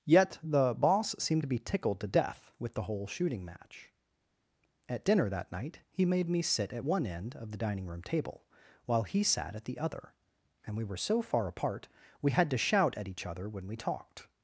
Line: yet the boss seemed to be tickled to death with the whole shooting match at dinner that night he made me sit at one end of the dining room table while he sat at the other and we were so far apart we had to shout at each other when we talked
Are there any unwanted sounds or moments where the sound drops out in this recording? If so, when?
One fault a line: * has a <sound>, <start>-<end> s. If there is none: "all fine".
all fine